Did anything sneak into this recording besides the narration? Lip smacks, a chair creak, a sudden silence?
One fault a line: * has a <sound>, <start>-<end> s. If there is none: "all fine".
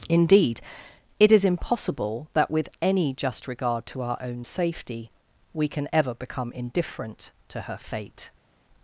all fine